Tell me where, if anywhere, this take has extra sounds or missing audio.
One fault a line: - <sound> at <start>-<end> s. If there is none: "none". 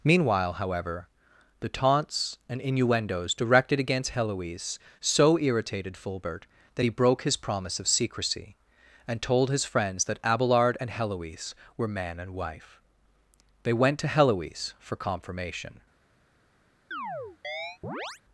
- chirp at 16.9-18.2 s